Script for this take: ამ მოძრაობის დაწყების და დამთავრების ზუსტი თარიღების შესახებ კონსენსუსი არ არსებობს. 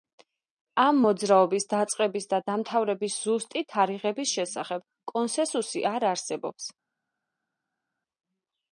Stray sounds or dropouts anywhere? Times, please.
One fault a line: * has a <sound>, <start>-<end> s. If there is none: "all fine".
all fine